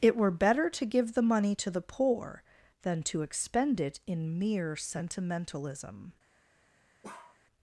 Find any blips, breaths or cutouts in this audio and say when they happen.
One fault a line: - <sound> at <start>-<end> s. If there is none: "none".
- bark at 7.0-7.4 s